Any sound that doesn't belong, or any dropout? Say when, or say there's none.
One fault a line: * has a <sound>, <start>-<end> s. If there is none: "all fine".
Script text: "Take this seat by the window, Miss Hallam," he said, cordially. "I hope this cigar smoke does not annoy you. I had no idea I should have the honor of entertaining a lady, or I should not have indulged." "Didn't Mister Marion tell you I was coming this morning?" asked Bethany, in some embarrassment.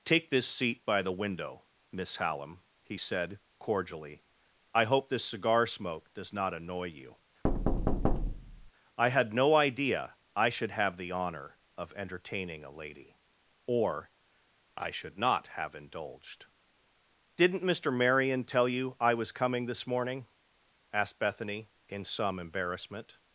* has a thud, 7.4-8.7 s